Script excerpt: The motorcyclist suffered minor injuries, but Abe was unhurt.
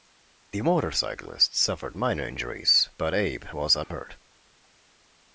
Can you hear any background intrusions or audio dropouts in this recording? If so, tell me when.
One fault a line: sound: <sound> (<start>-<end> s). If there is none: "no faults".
sound: dropout (3.8-3.9 s)